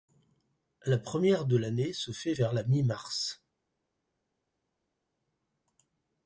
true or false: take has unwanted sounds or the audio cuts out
false